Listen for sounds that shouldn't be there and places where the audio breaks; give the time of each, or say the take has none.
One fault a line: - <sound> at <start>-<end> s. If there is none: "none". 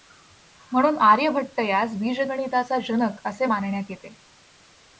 none